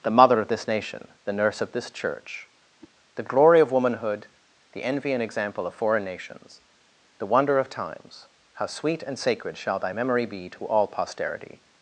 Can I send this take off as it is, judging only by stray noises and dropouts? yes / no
no